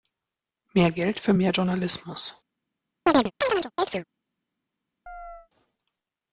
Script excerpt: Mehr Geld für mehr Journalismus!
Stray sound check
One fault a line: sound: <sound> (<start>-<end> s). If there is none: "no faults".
sound: chirp (3.1-4.0 s)
sound: chirp (5.1-5.5 s)